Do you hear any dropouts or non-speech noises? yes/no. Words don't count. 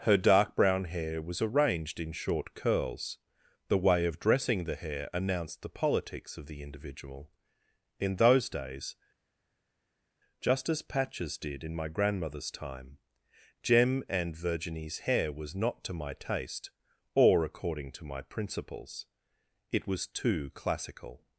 no